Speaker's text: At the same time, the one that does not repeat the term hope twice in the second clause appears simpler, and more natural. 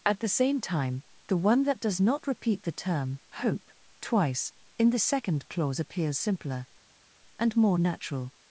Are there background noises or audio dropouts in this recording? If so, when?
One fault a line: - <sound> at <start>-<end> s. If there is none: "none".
none